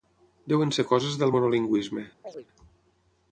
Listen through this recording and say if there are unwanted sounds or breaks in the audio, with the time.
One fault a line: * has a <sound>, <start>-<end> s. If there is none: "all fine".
* has a chirp, 2.2-2.5 s